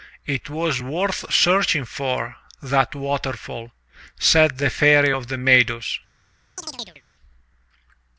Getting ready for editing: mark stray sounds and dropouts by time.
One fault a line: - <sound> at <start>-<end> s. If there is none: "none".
- chirp at 6.6-7.0 s